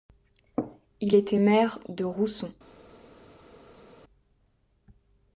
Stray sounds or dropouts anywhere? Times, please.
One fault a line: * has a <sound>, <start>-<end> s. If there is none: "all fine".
all fine